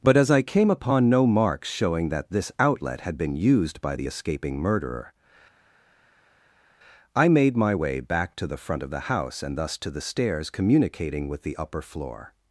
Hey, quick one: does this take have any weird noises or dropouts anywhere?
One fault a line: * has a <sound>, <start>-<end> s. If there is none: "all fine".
all fine